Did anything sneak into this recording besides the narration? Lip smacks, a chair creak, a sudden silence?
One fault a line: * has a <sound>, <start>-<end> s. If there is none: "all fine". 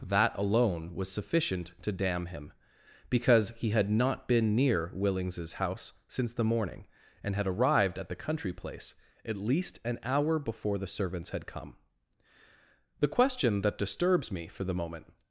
all fine